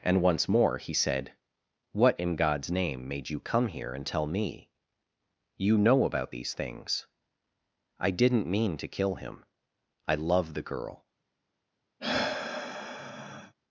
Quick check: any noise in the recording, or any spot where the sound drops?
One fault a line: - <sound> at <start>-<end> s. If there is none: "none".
- sigh at 12.0-13.5 s